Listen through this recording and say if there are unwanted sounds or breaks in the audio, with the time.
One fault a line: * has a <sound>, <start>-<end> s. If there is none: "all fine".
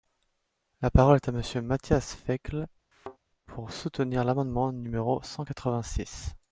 * has a thud, 2.9-3.2 s